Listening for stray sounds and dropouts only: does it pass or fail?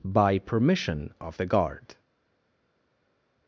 pass